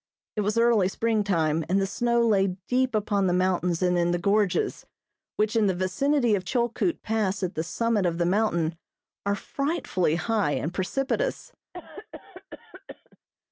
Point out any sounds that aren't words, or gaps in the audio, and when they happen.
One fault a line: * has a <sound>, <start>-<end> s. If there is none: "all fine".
* has a cough, 11.7-13.2 s